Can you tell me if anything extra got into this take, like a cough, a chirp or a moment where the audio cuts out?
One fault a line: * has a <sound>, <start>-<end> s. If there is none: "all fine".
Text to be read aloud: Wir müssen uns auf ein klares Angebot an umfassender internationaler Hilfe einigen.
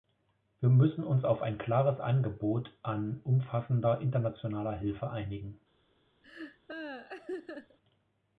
* has a laugh, 6.2-7.8 s